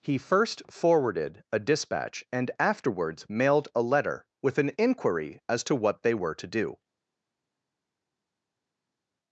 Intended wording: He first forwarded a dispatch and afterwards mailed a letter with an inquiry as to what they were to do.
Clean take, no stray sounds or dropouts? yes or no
yes